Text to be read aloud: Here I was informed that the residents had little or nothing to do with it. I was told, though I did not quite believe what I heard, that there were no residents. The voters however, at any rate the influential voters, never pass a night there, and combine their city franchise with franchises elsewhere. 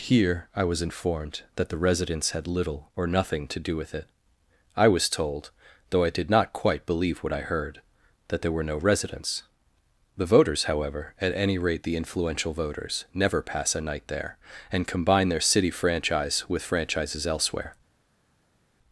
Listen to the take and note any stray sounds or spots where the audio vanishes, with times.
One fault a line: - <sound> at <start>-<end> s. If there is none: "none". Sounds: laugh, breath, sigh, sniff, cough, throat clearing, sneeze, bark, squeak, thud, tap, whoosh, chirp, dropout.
none